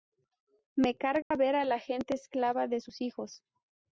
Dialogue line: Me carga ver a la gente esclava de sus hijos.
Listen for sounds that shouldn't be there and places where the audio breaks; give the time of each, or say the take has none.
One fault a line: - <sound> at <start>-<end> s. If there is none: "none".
- dropout at 1.2-1.3 s